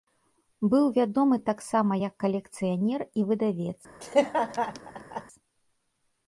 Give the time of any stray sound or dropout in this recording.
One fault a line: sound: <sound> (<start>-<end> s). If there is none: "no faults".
sound: laugh (4.0-5.2 s)